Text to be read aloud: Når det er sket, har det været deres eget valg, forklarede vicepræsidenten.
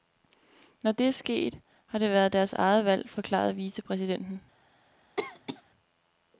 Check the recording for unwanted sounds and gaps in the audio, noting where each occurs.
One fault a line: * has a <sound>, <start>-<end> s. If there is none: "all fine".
* has a cough, 5.2-5.6 s